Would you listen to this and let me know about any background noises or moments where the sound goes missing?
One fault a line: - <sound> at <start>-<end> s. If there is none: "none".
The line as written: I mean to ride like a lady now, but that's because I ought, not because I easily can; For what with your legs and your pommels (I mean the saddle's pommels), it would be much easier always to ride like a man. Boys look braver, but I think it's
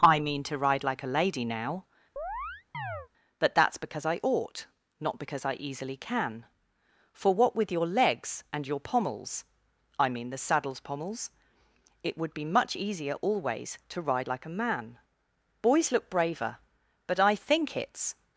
- chirp at 2.2-3.1 s